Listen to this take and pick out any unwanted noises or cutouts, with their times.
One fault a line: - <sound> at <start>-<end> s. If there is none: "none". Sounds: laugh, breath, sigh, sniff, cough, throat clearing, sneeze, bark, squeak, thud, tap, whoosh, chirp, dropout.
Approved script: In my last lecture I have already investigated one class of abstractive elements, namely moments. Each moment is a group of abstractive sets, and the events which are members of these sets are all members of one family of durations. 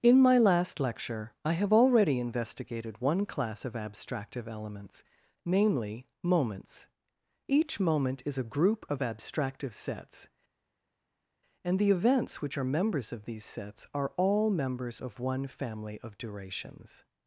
none